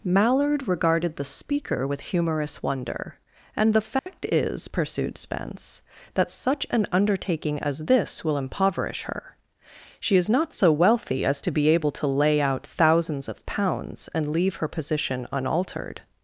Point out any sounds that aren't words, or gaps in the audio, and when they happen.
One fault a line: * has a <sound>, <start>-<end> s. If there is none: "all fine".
* has a dropout, 4.0-4.1 s